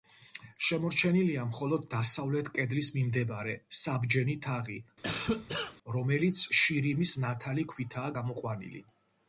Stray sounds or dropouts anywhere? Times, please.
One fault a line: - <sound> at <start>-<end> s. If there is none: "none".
- cough at 5.0-5.8 s